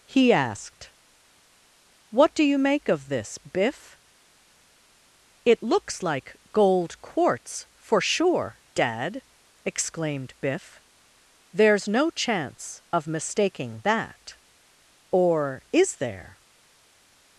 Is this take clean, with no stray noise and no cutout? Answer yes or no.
yes